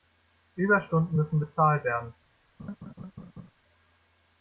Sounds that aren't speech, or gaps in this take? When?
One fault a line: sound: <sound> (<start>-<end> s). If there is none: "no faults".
sound: laugh (2.6-3.5 s)